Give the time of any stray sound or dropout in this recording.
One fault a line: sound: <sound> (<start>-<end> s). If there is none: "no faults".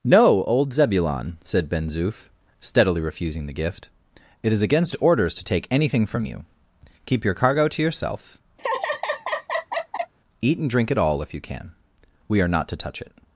sound: laugh (8.6-10.1 s)